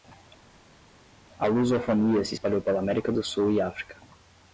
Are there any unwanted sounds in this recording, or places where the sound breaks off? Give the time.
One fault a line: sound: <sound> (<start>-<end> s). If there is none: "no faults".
no faults